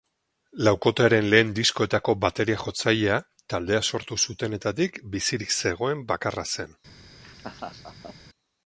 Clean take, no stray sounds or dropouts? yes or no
no